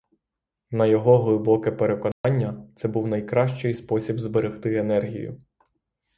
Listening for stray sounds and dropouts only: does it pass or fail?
fail